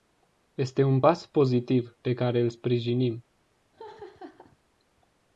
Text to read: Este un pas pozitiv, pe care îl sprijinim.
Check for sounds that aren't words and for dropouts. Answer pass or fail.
fail